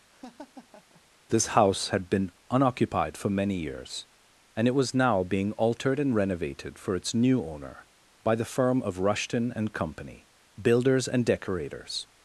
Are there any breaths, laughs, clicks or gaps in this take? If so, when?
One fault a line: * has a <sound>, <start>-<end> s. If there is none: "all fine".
* has a laugh, 0.1-1.0 s